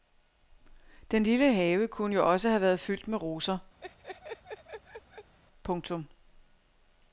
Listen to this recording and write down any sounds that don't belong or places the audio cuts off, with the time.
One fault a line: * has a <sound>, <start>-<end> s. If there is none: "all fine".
* has a laugh, 3.8-5.4 s